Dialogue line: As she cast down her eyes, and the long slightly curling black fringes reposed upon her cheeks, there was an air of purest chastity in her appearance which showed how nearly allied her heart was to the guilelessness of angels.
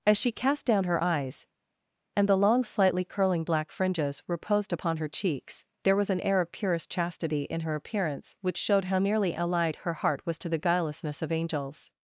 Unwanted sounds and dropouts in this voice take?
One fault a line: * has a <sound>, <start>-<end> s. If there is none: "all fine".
all fine